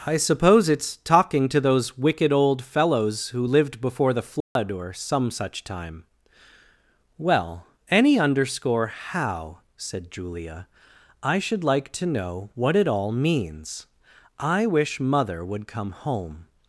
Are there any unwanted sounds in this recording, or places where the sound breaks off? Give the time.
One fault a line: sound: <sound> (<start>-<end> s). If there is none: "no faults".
sound: dropout (4.4-4.6 s)